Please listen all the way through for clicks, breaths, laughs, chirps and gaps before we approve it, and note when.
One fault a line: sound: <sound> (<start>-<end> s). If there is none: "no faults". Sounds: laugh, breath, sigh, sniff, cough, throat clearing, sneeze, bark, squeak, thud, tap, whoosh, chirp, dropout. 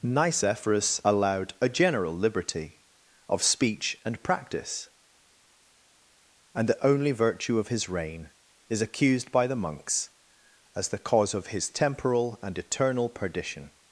no faults